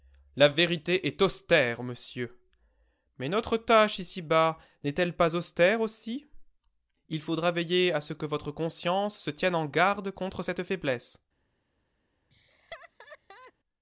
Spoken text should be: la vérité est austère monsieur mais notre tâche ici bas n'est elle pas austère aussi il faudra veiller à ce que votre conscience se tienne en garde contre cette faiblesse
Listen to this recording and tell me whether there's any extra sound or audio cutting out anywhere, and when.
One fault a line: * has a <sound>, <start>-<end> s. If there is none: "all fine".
* has a laugh, 12.3-13.5 s